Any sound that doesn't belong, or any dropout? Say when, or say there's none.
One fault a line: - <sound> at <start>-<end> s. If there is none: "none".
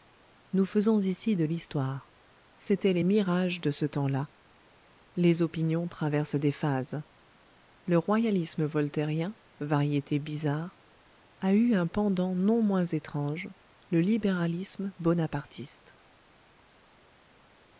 none